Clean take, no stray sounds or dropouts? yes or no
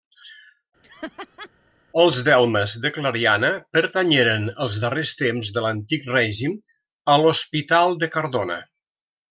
no